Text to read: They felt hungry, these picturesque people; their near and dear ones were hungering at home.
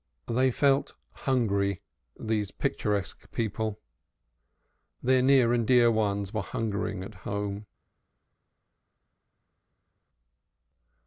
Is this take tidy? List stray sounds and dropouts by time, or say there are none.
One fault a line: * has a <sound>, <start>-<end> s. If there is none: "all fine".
all fine